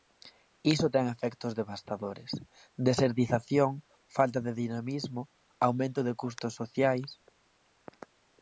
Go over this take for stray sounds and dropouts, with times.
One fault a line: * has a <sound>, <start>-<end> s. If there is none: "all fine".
all fine